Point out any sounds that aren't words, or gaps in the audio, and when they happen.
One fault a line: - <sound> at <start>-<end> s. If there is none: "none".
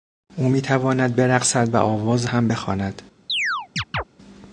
- chirp at 3.3-4.0 s